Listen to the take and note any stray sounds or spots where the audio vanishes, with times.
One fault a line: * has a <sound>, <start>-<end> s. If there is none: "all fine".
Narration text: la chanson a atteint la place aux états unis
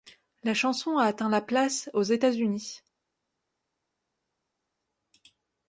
all fine